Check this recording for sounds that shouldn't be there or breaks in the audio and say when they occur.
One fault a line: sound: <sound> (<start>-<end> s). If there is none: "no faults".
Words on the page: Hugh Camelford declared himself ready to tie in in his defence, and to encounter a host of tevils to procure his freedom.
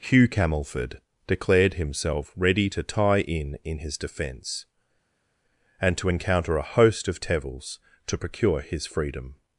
no faults